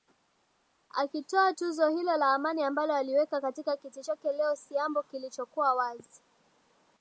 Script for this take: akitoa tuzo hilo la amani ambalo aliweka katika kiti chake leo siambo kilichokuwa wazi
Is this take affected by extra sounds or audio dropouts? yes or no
no